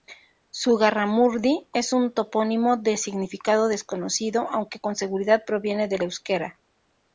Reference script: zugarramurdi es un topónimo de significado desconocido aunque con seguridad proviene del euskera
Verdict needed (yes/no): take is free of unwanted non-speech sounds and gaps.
yes